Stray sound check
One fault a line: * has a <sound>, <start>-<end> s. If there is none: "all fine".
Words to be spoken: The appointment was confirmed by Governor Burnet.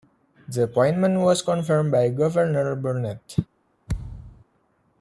* has a thud, 3.9-4.4 s